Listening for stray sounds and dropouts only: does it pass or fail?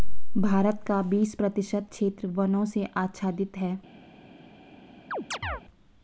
fail